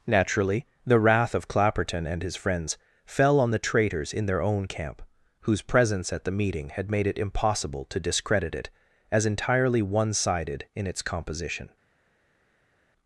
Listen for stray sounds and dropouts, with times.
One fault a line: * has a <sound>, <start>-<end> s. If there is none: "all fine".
all fine